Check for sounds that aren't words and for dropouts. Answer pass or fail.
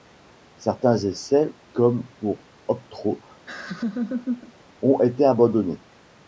fail